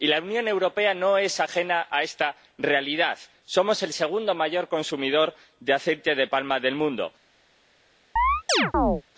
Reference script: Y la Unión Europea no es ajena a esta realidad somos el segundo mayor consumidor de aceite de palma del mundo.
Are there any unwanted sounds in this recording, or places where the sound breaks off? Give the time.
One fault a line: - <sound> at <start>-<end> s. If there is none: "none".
- chirp at 8.2-9.0 s